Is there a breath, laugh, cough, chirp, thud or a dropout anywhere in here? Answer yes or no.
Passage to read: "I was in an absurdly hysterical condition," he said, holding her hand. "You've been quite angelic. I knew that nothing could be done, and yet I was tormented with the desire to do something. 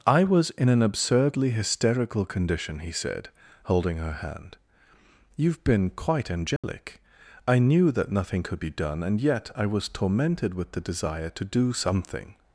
yes